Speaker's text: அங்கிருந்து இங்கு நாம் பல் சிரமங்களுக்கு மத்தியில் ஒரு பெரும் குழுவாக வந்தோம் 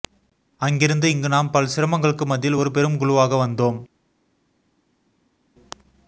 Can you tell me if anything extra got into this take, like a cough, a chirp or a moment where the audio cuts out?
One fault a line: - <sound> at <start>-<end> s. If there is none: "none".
none